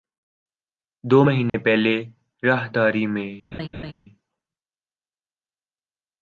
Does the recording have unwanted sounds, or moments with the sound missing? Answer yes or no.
yes